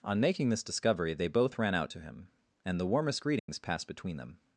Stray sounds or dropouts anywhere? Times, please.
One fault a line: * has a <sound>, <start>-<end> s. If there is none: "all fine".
* has a dropout, 3.4-3.5 s